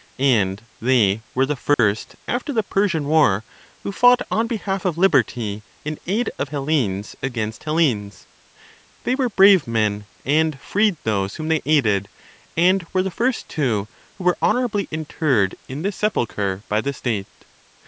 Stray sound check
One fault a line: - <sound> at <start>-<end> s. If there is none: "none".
- dropout at 1.7-1.8 s